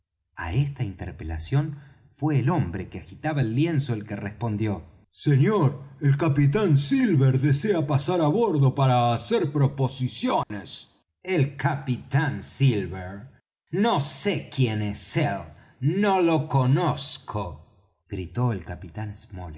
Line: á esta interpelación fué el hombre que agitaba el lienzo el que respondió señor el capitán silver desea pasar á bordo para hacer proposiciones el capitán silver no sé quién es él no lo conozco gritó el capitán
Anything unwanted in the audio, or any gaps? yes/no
yes